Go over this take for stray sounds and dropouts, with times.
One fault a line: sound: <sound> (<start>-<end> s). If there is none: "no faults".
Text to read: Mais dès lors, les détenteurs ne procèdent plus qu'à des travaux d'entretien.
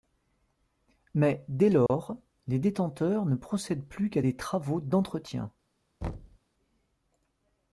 sound: dropout (1.9-1.9 s)
sound: thud (6.0-6.4 s)